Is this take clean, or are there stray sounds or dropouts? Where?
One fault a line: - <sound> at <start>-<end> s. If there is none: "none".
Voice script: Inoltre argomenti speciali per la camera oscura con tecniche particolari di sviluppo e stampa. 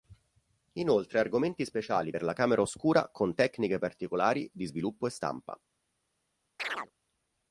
- chirp at 6.6-6.9 s